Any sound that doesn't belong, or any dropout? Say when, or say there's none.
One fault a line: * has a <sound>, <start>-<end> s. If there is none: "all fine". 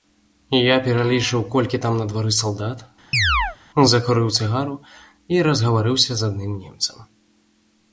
* has a chirp, 3.1-3.6 s